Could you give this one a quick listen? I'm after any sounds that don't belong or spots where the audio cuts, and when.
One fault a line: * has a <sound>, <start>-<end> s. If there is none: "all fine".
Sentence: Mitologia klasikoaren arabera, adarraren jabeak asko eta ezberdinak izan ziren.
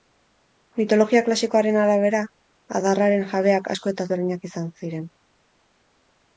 all fine